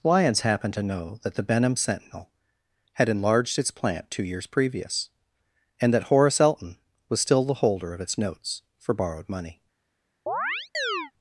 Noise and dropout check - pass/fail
fail